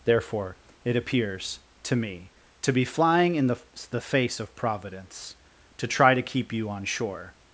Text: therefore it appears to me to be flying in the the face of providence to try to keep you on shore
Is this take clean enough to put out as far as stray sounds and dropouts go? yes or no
yes